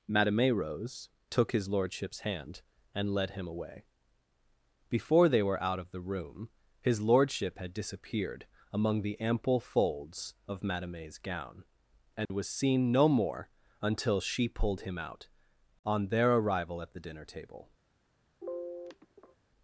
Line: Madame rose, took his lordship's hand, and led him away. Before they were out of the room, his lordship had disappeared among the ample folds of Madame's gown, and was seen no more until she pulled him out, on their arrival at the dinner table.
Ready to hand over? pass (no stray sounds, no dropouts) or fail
fail